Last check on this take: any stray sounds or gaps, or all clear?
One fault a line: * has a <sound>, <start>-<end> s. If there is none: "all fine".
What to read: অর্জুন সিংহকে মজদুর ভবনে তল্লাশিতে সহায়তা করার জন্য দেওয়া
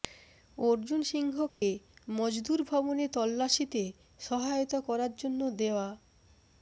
* has a dropout, 1.5-1.6 s